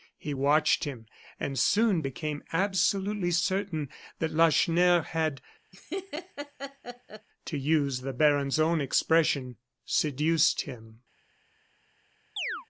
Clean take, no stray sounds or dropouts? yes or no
no